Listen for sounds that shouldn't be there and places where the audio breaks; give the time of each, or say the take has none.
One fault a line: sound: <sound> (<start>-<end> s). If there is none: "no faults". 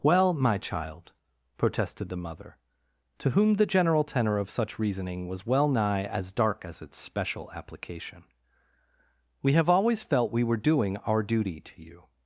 no faults